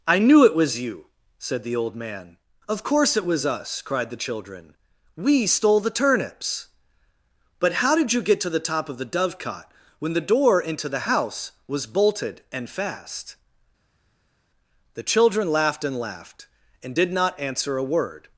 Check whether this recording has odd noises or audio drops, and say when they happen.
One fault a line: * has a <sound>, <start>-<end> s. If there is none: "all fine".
all fine